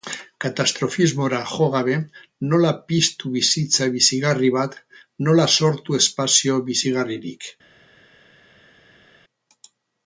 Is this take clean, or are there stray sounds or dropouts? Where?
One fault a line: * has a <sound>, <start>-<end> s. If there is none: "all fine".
all fine